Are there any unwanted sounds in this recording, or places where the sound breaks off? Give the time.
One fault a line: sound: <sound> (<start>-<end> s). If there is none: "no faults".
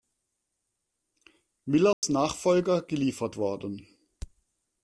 sound: dropout (1.9-2.0 s)